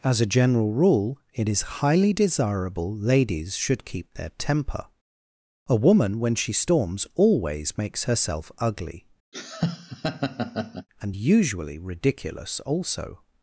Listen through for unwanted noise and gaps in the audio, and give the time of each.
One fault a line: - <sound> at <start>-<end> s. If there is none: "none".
- laugh at 9.3-10.9 s